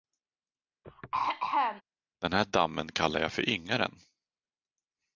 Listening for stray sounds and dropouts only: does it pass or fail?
fail